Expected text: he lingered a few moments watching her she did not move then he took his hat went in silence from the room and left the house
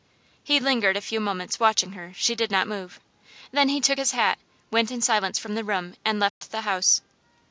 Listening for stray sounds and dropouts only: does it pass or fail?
fail